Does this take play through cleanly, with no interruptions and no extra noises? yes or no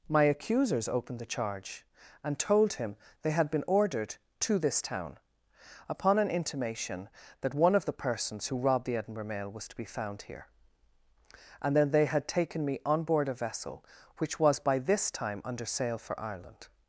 yes